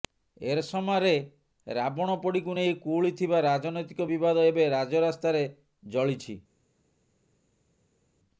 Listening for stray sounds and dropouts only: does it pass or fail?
pass